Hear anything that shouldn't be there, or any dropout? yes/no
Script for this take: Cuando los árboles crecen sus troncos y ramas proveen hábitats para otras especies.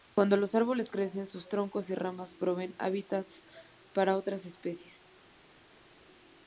no